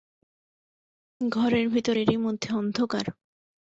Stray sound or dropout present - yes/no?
no